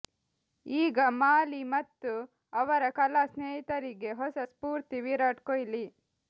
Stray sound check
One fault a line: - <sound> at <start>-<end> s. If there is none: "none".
none